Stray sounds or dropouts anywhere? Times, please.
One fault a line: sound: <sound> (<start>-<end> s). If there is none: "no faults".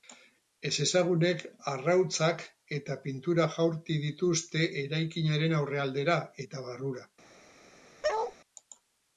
sound: bark (8.0-8.4 s)